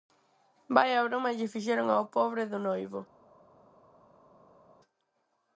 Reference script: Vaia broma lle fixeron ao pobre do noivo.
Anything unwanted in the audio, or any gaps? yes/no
no